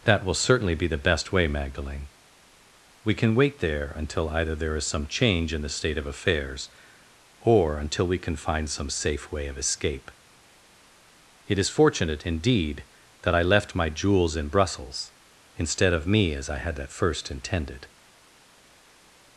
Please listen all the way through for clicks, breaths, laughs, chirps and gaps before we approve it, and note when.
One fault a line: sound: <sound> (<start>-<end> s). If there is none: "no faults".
no faults